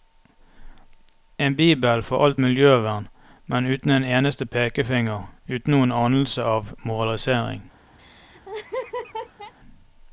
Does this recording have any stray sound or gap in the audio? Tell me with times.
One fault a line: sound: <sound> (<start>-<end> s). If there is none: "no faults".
sound: laugh (8.0-9.5 s)